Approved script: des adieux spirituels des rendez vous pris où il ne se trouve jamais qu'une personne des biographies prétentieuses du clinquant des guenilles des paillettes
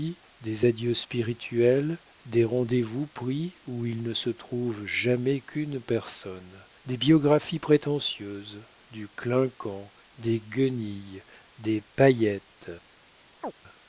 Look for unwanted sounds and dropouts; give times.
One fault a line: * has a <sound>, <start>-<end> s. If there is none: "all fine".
* has a chirp, 13.4-13.5 s